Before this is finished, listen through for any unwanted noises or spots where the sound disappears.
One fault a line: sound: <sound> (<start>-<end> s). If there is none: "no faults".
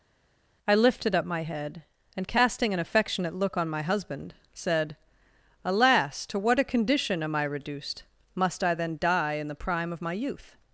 no faults